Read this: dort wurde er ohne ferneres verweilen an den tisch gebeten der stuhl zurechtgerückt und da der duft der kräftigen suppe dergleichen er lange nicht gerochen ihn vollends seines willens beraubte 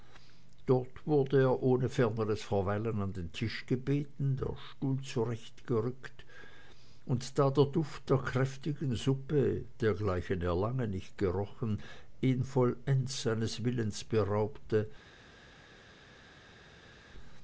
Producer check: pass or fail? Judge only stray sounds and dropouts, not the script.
pass